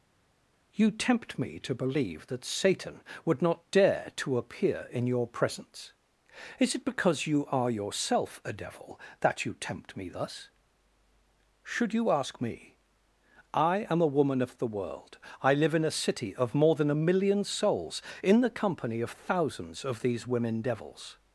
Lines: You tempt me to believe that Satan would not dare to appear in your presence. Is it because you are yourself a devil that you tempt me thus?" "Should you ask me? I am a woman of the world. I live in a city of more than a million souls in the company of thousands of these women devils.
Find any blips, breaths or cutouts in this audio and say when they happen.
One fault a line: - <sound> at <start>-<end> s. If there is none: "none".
none